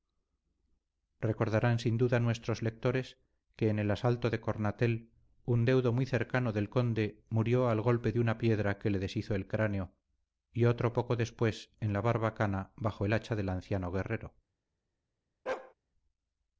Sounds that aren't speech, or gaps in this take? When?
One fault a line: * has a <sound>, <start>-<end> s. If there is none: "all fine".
* has a bark, 15.5-15.7 s